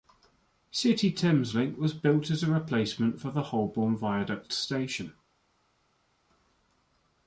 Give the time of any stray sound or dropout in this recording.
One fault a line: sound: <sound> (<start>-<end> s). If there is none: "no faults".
no faults